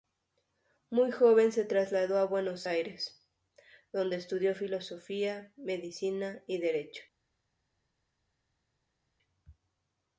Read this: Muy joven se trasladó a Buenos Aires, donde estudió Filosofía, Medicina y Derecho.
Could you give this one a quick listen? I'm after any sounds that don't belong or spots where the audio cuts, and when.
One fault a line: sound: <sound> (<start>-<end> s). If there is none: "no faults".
no faults